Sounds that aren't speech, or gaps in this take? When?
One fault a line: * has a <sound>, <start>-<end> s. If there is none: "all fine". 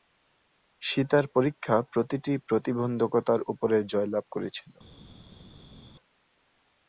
all fine